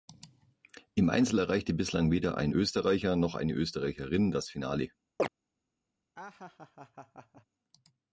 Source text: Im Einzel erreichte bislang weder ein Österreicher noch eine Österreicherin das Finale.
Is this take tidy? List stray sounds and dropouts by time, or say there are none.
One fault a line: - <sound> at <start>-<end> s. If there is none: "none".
- chirp at 5.2-5.3 s
- laugh at 6.2-7.5 s